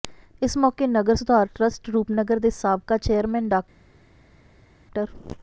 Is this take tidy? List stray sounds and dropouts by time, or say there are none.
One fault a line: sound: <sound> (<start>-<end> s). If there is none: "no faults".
no faults